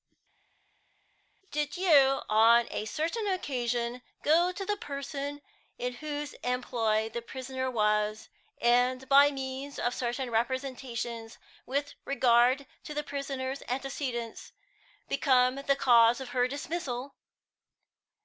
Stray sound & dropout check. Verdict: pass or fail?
pass